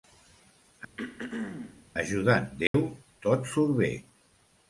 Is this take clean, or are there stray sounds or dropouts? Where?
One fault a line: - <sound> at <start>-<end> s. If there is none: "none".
- throat clearing at 1.0-1.9 s
- dropout at 2.7-2.7 s